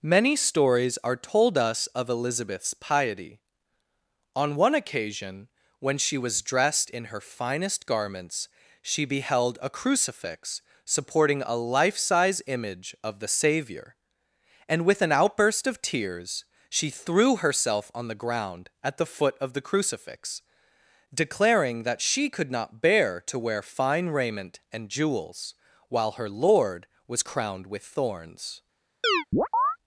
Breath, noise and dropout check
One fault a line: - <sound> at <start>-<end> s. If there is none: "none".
- chirp at 29.0-29.8 s